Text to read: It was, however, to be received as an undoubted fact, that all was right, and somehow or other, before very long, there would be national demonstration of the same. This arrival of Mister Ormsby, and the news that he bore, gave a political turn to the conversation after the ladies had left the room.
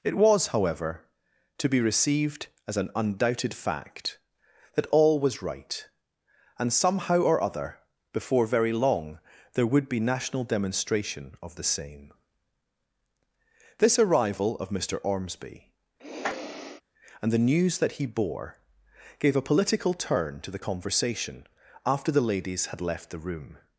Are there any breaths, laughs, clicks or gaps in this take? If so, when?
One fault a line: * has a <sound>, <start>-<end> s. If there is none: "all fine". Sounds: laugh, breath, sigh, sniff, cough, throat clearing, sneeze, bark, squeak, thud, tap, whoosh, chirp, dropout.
* has a sniff, 16.0-16.8 s